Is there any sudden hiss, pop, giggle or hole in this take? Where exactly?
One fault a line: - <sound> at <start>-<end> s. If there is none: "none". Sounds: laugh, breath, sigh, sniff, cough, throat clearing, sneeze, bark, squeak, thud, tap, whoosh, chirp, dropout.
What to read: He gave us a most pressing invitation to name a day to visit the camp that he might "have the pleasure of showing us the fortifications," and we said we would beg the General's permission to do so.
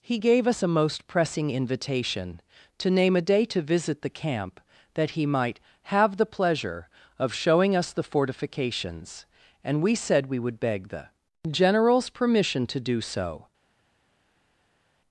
none